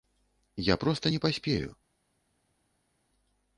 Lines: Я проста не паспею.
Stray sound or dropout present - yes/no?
no